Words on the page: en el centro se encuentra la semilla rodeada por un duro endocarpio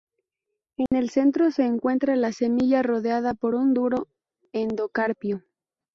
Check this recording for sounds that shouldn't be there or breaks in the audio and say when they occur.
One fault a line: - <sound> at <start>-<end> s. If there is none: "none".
- dropout at 0.9-0.9 s